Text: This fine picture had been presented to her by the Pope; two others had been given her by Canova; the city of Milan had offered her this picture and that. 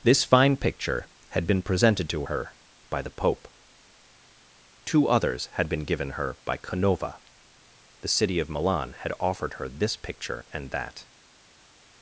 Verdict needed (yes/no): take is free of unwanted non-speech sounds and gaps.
yes